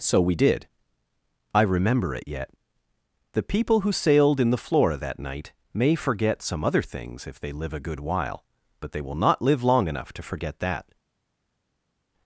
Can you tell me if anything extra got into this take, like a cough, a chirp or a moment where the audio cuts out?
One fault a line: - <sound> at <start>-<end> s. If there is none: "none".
none